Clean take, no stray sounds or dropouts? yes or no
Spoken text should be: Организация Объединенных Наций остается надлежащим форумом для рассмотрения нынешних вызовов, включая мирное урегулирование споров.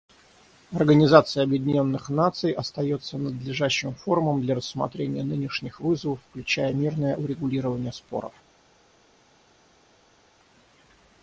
yes